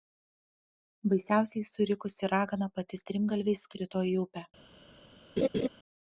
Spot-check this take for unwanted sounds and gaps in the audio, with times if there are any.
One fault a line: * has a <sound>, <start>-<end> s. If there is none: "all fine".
* has a laugh, 5.4-5.7 s